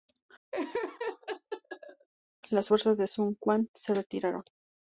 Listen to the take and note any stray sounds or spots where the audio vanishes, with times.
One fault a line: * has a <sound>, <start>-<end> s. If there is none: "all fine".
* has a laugh, 0.5-2.1 s